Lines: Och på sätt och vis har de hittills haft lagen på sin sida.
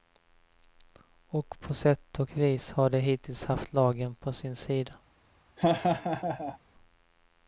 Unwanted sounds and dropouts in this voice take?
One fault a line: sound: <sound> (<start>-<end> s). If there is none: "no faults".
sound: laugh (5.6-6.6 s)